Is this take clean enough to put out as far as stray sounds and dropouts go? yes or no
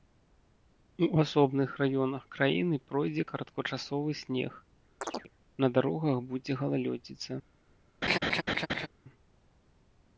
no